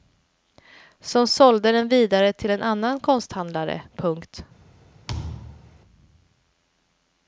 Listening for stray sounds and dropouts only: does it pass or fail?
fail